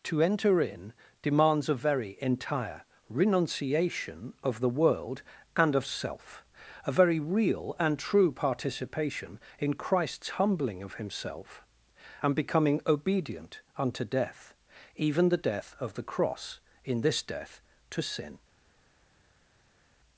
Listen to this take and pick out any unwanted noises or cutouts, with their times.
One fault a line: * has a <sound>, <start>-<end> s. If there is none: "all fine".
all fine